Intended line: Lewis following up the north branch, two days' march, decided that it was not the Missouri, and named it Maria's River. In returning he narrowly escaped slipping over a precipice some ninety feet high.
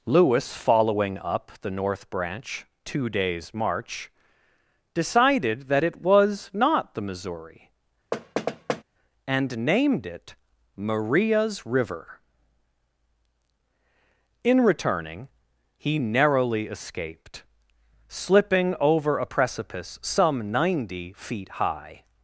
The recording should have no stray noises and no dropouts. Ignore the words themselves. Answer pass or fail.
fail